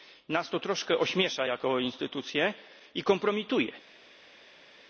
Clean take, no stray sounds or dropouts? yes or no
yes